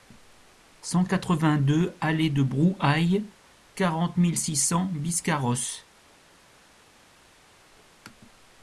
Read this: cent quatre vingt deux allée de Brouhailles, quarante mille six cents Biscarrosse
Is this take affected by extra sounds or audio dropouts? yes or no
no